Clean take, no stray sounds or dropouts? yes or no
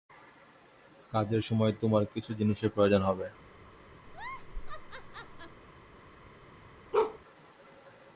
no